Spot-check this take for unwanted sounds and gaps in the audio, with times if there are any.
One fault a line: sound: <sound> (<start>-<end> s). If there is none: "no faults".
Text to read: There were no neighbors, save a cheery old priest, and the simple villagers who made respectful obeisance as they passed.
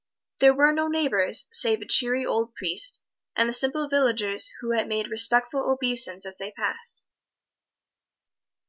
no faults